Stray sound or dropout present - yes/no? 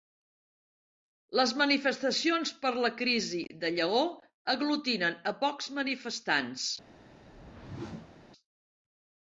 yes